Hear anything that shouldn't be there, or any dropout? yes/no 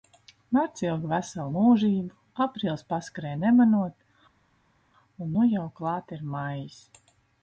no